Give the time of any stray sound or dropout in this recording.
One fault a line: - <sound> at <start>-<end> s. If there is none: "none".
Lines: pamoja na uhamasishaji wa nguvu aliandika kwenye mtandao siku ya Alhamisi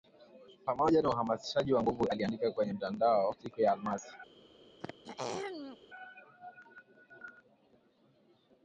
- throat clearing at 4.8-5.8 s